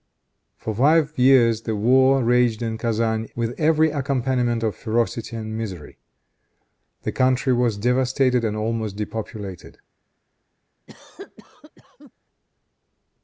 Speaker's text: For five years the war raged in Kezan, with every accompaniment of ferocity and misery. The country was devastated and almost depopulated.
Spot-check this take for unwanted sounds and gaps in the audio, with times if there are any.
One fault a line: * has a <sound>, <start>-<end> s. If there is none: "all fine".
* has a cough, 10.9-12.1 s